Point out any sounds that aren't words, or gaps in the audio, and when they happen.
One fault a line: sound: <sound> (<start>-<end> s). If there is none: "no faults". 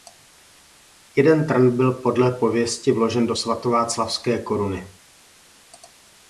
no faults